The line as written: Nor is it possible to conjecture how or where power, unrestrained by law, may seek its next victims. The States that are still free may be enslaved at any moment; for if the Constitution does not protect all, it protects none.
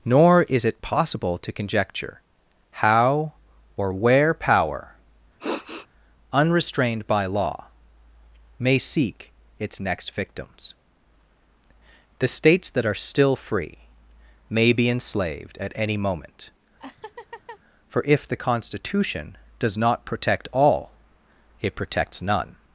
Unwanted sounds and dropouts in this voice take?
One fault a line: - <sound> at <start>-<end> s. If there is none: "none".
- sniff at 5.4-5.9 s
- laugh at 16.8-17.6 s